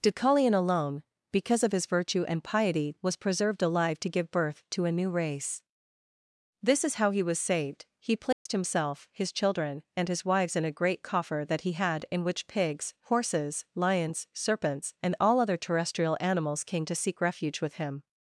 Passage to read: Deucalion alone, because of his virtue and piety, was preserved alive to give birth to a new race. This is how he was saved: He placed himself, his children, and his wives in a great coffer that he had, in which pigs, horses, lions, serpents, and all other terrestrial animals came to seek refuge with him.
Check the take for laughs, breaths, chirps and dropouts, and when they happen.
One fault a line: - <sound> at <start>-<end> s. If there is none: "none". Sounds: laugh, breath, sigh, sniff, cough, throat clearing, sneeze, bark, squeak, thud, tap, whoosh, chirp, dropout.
- dropout at 8.3-8.5 s